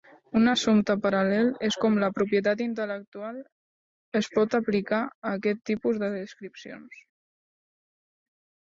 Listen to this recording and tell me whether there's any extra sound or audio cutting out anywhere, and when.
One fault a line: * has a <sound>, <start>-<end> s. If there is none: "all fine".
all fine